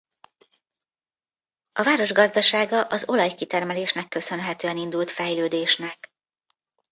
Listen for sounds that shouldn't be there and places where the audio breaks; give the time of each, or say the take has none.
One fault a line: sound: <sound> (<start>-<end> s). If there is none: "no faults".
no faults